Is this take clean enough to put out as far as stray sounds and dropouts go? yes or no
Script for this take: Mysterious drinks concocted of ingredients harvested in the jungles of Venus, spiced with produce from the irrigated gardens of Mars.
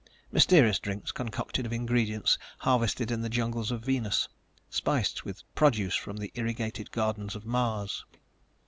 yes